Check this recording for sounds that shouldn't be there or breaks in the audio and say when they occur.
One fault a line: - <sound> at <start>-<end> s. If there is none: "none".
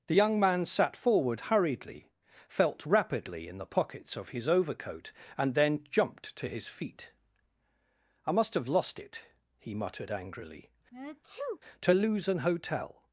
- sneeze at 10.9-11.6 s